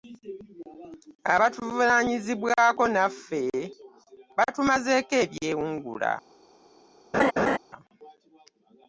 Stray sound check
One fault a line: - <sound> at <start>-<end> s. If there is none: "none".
- laugh at 7.1-7.6 s